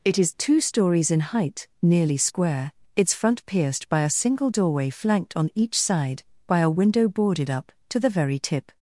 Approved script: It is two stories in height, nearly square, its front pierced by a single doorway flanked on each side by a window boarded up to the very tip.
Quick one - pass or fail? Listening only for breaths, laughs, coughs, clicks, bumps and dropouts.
pass